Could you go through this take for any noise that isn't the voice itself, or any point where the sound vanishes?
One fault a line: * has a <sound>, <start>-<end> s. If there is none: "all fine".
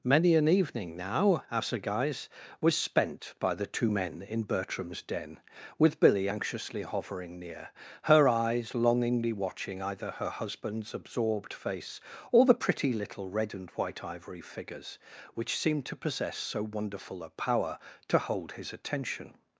all fine